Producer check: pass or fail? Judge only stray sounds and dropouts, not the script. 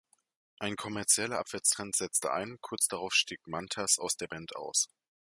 pass